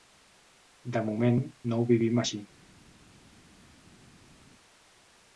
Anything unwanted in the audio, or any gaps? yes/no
no